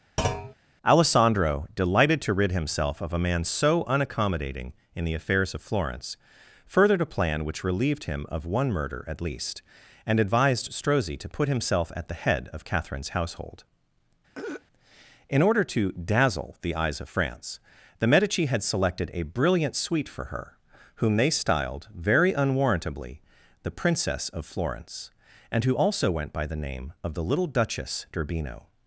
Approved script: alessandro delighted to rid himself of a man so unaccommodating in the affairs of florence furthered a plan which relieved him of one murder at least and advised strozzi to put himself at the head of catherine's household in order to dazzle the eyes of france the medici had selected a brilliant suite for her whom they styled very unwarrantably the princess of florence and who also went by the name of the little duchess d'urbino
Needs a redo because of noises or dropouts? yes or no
yes